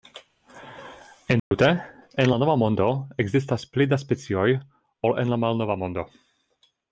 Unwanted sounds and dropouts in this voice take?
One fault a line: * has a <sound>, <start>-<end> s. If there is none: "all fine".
* has a dropout, 1.4-1.5 s